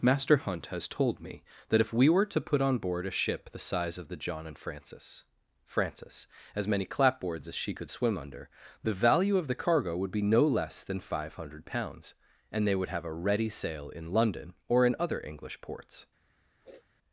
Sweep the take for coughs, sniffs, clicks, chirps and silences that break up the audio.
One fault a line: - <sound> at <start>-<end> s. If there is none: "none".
- sniff at 16.6-16.9 s